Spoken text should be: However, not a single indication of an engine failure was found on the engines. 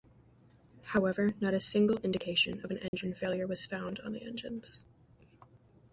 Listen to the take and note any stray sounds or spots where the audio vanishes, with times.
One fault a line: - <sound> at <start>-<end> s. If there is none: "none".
- dropout at 2.9-2.9 s